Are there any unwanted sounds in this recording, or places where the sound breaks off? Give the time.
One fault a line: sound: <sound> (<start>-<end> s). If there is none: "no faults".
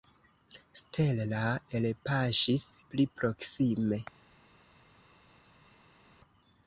no faults